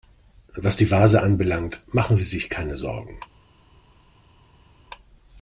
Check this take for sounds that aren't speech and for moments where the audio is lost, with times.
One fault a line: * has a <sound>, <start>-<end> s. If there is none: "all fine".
all fine